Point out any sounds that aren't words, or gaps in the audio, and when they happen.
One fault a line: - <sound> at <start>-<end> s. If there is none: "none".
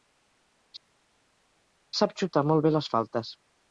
none